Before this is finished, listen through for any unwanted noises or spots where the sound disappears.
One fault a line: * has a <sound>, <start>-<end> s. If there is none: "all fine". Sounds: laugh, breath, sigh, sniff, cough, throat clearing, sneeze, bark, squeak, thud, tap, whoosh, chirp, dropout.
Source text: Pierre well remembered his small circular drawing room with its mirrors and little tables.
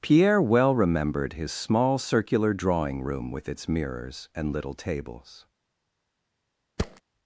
* has a thud, 6.8-7.0 s